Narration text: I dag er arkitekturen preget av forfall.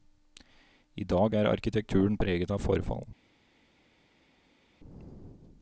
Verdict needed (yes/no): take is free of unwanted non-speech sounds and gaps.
yes